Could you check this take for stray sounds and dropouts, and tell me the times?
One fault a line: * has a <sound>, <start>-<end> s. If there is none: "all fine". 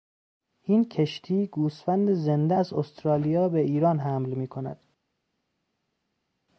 all fine